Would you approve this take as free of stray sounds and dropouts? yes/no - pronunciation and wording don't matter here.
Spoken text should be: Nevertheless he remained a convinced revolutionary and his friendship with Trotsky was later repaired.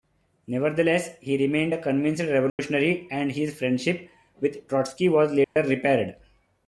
no